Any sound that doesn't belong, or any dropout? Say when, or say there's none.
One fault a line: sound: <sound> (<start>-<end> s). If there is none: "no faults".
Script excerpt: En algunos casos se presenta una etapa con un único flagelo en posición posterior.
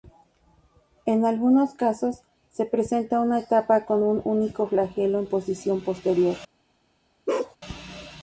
sound: bark (7.3-7.6 s)